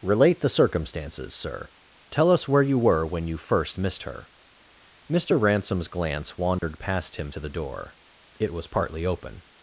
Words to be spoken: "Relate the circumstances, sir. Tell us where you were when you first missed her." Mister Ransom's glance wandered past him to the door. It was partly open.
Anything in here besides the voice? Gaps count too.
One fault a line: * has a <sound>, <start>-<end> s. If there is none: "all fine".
* has a dropout, 6.6-6.6 s